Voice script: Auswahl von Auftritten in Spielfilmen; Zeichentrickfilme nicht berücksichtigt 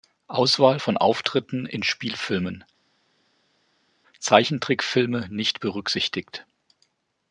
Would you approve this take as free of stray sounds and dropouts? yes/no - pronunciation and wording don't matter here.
yes